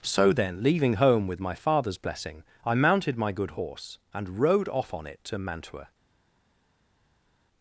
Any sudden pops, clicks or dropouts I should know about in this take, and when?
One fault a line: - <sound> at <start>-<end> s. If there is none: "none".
none